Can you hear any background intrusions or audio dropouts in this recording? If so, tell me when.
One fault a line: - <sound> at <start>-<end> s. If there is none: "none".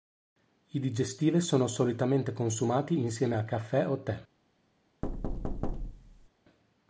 - thud at 5.0-6.3 s